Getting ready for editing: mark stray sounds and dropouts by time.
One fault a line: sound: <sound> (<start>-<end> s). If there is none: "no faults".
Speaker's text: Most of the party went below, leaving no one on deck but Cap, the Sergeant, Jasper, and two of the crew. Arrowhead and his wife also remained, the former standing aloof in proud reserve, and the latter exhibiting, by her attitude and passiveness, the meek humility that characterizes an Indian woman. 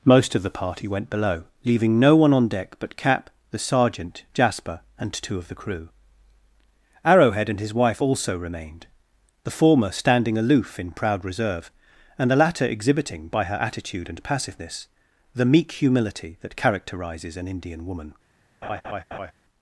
sound: laugh (18.6-19.3 s)